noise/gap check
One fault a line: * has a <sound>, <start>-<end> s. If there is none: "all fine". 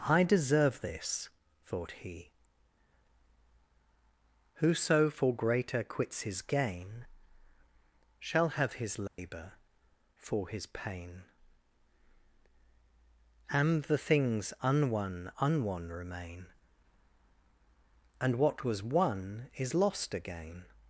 * has a dropout, 9.1-9.2 s